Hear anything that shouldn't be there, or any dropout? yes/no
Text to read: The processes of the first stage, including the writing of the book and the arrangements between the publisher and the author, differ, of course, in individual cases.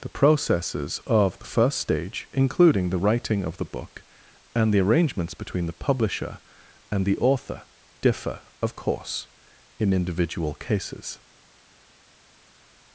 no